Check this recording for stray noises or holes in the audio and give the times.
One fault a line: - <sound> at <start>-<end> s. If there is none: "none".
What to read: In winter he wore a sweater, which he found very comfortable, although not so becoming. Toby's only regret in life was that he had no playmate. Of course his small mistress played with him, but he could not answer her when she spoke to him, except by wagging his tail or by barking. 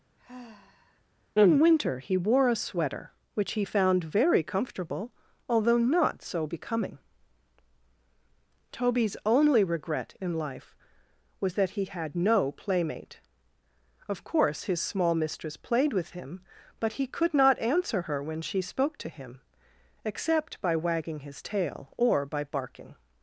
- sigh at 0.2-1.0 s